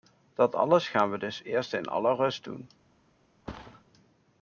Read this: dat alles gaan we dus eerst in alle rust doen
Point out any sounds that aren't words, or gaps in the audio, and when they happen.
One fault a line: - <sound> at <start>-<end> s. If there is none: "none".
- thud at 3.5-3.8 s